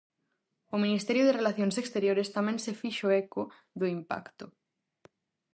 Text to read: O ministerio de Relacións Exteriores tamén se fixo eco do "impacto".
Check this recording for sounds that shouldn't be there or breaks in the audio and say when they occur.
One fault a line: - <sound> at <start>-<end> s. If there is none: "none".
none